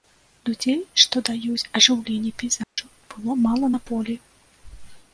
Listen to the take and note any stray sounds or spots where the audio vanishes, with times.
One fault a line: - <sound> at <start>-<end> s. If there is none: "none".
- dropout at 2.6-2.8 s